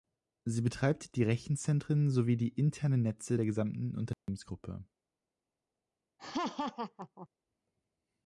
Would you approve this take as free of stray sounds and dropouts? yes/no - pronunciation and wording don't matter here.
no